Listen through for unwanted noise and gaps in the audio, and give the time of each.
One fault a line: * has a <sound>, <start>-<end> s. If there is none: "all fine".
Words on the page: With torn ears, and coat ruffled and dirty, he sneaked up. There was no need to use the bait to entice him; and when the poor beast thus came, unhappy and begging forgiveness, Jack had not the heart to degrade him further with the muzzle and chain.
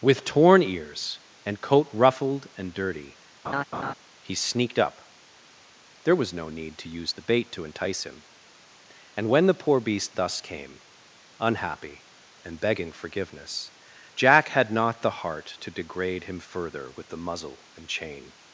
* has a laugh, 3.4-3.9 s